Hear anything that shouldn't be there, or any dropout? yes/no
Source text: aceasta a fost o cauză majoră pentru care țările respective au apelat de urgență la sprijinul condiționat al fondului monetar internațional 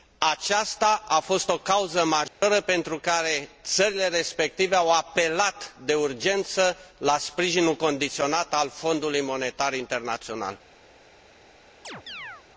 yes